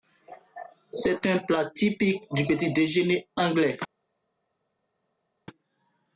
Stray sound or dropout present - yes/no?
no